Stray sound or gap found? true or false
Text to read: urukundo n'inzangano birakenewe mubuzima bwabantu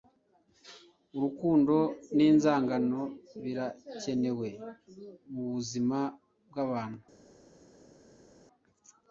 false